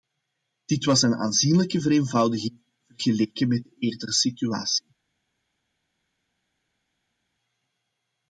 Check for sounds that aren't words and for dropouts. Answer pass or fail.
pass